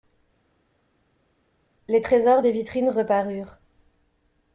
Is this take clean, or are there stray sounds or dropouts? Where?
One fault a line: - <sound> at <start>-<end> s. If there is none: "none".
none